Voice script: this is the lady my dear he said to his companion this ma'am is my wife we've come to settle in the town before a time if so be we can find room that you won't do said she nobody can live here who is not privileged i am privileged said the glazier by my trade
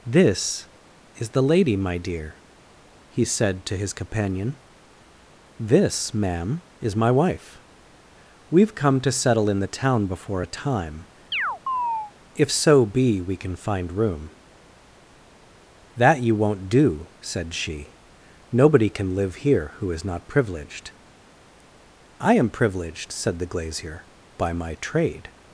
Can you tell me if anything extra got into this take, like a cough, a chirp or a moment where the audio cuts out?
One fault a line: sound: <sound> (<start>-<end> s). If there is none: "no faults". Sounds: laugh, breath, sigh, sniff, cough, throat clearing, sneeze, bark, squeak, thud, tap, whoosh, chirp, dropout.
sound: chirp (11.3-12.1 s)